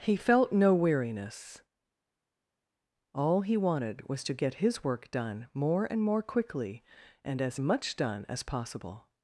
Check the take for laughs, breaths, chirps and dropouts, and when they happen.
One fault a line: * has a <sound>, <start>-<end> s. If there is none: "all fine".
all fine